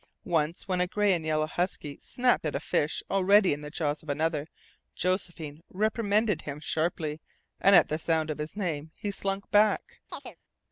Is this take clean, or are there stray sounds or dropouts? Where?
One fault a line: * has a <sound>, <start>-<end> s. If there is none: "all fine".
* has a chirp, 10.1-10.4 s